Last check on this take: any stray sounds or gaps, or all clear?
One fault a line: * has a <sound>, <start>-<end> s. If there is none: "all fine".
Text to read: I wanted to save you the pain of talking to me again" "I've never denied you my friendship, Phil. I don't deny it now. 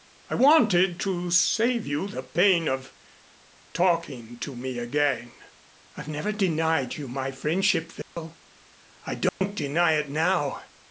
* has a dropout, 8.0-8.2 s
* has a dropout, 9.3-9.4 s